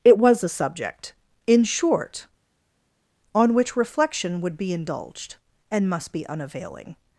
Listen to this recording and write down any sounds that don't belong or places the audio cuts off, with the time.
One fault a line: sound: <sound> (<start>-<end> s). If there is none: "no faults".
no faults